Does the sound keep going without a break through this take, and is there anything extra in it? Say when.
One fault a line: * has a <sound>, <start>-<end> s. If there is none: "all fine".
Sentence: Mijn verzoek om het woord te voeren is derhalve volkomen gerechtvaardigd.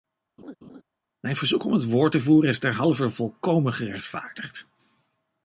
* has a laugh, 0.4-0.8 s